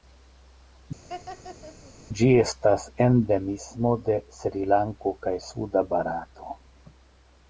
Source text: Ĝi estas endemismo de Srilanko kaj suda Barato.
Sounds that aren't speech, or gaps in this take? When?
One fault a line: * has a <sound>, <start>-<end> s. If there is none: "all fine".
* has a laugh, 1.1-1.9 s